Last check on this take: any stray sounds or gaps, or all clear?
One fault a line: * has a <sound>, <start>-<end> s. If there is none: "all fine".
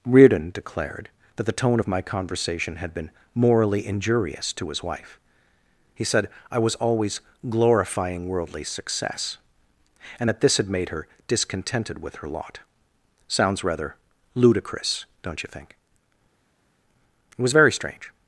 all fine